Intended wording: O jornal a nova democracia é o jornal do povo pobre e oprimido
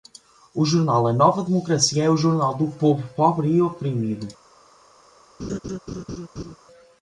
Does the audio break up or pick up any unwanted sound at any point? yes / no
yes